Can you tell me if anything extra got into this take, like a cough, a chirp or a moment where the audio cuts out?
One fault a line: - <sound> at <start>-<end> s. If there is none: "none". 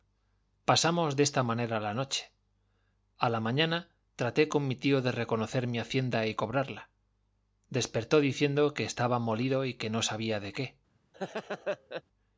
- laugh at 11.1-12.0 s